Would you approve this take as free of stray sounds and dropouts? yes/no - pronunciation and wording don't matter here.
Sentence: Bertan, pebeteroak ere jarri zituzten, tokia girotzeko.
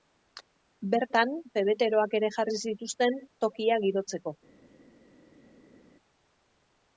yes